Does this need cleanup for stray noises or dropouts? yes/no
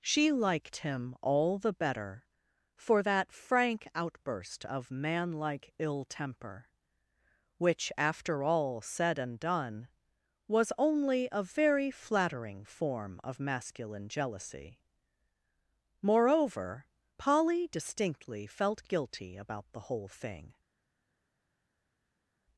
no